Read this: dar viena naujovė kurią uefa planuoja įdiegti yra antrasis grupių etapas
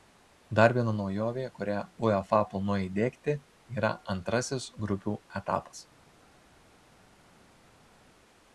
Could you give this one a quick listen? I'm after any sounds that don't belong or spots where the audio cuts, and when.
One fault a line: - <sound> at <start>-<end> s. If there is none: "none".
none